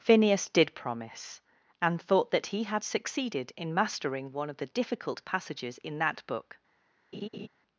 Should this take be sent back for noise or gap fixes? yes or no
yes